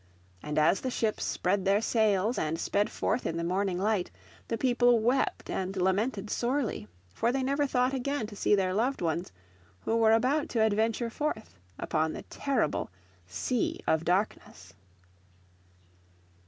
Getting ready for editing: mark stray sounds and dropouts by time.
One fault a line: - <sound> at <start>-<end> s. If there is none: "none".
none